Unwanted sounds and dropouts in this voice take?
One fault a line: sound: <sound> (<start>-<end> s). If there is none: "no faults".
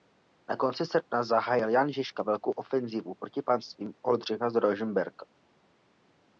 no faults